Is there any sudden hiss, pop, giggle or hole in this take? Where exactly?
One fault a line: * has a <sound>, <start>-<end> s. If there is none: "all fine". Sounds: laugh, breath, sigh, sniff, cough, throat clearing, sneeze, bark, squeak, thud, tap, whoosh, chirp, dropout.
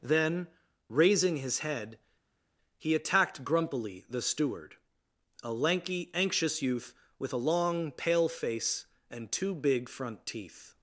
all fine